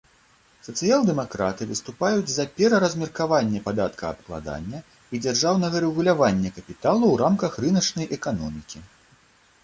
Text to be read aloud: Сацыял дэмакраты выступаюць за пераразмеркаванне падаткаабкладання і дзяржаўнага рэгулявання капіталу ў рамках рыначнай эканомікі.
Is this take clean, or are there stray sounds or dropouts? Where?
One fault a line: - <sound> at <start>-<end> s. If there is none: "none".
none